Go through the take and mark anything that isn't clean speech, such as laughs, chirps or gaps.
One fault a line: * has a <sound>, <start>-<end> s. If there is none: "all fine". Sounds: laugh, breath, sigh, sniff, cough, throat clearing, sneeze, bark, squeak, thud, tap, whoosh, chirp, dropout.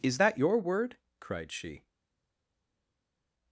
all fine